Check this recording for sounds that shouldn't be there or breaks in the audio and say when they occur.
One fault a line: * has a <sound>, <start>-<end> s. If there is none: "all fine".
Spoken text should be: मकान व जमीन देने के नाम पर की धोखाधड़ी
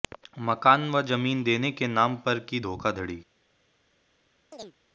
* has a chirp, 4.5-4.7 s